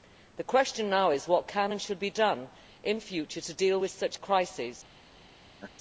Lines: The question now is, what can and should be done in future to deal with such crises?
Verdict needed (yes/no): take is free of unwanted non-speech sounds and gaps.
no